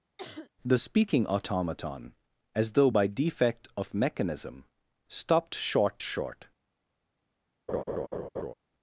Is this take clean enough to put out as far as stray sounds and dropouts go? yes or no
no